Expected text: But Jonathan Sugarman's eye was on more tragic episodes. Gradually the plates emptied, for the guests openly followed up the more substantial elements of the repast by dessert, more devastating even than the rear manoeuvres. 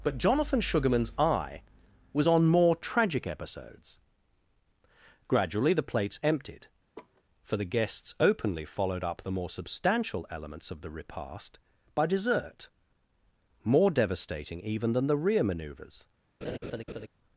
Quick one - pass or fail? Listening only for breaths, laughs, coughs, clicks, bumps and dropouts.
fail